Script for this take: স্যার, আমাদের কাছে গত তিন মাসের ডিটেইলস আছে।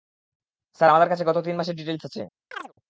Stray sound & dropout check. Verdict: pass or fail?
fail